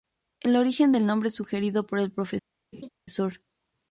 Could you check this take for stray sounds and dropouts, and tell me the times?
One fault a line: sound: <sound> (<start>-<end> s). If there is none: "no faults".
sound: laugh (2.7-2.9 s)